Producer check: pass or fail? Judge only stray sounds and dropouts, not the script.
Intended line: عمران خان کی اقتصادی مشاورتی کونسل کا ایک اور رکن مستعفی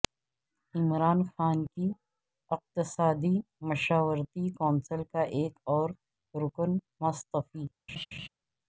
fail